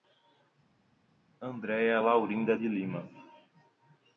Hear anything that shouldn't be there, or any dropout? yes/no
no